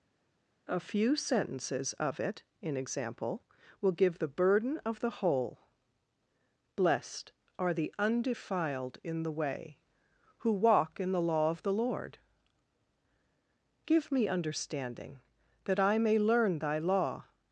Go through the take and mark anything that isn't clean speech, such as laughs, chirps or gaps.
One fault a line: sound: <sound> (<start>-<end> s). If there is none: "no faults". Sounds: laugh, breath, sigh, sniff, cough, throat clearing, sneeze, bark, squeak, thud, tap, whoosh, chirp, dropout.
no faults